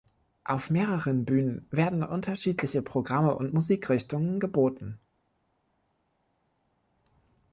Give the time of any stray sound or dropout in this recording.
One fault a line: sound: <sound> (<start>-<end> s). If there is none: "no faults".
no faults